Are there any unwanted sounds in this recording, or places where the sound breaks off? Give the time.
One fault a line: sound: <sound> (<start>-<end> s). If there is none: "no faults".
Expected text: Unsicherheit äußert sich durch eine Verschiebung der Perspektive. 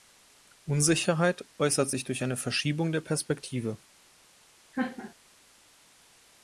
sound: laugh (4.7-5.1 s)